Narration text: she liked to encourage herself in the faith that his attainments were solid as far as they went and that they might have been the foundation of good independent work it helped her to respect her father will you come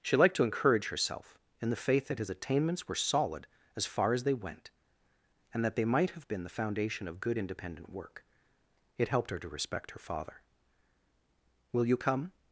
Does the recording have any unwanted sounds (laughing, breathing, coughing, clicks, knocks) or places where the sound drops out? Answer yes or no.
no